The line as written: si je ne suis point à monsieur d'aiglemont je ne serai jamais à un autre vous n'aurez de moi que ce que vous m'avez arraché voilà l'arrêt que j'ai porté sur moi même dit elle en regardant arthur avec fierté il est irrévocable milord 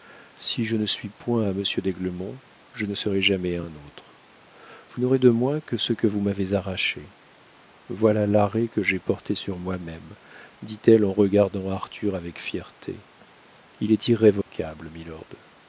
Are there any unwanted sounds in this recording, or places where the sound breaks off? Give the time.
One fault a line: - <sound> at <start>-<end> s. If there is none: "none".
- dropout at 14.4-14.5 s